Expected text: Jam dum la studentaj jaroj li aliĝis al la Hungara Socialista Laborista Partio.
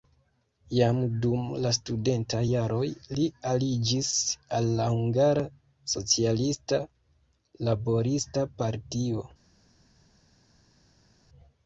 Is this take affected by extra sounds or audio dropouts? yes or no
no